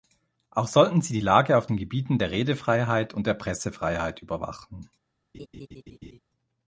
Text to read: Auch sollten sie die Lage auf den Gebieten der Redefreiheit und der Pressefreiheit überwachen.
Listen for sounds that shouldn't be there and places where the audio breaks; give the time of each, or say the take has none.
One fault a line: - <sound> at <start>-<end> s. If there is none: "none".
- laugh at 5.3-6.2 s